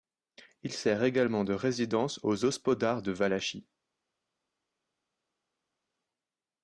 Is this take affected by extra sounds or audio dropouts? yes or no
no